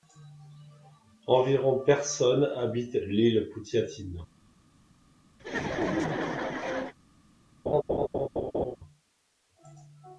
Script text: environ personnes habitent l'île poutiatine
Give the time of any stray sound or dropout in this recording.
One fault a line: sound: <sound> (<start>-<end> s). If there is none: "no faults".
sound: laugh (5.4-6.9 s)
sound: laugh (7.7-8.8 s)